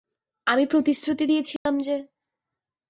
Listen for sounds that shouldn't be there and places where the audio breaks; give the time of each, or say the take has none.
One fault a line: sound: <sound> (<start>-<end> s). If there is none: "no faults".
sound: dropout (1.6-1.7 s)